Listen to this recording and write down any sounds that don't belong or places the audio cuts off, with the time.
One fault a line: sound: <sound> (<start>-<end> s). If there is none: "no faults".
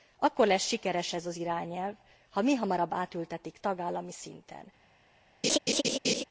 sound: laugh (5.4-6.2 s)